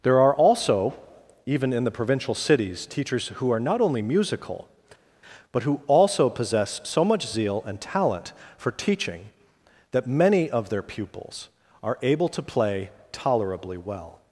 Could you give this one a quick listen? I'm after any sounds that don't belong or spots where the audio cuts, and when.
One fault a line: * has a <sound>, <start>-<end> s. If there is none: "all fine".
all fine